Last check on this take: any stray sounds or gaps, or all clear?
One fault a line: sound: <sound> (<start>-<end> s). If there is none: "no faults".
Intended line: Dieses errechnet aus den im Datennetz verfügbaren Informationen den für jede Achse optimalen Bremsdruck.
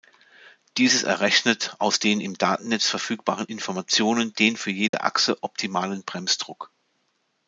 sound: dropout (4.9-4.9 s)